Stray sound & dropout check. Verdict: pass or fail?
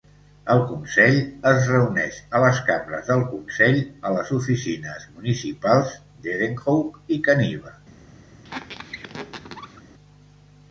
fail